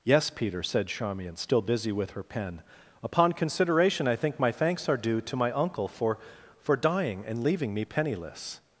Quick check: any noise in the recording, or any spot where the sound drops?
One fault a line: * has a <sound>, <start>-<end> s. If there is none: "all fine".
all fine